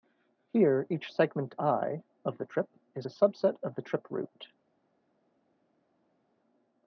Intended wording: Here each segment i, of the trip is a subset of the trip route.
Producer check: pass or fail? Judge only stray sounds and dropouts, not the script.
pass